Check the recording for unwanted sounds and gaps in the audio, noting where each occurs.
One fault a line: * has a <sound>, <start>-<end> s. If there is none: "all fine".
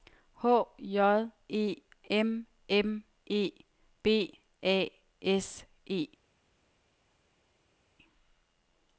all fine